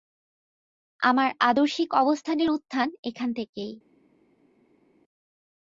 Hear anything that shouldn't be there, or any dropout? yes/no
no